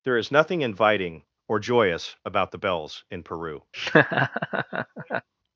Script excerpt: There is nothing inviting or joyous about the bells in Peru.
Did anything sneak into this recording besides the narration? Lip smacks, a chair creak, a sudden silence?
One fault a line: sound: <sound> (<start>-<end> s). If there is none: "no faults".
sound: laugh (3.7-5.3 s)